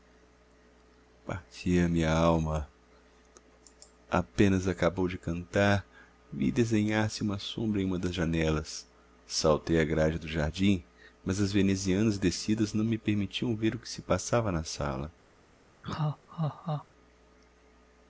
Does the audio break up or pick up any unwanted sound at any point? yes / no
yes